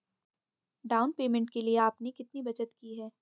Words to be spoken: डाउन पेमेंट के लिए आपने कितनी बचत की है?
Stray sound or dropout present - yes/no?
no